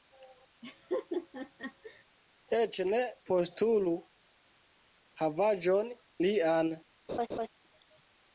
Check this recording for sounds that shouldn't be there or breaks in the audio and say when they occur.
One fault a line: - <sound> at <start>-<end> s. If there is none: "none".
- laugh at 0.6-2.0 s
- laugh at 7.1-7.5 s